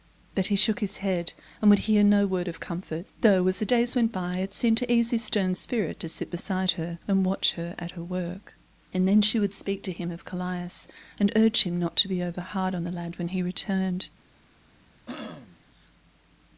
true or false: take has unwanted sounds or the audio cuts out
true